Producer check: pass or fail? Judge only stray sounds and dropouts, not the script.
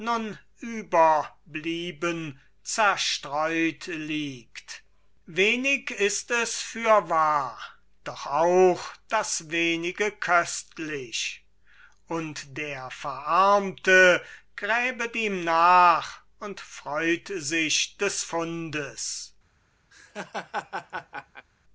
fail